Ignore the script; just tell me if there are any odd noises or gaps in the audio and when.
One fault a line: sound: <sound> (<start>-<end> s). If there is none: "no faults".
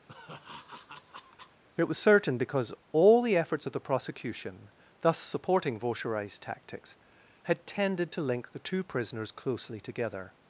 sound: laugh (0.1-1.6 s)